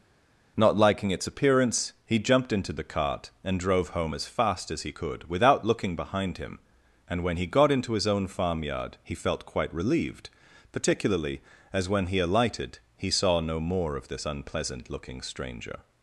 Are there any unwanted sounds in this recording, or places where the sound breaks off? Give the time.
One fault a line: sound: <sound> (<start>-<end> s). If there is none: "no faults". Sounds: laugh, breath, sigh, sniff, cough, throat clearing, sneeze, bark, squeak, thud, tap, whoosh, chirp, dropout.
no faults